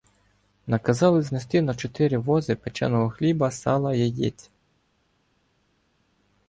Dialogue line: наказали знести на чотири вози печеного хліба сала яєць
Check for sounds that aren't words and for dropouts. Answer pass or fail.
pass